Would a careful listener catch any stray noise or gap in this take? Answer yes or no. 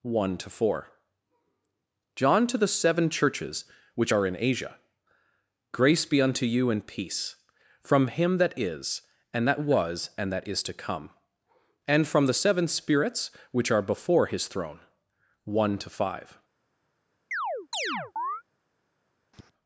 yes